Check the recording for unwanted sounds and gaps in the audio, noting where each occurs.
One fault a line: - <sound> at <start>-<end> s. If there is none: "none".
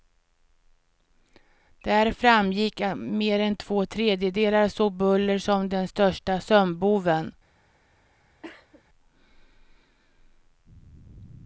- cough at 8.4-8.8 s